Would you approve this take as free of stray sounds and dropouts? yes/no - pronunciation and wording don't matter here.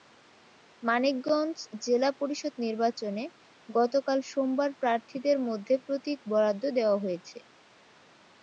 yes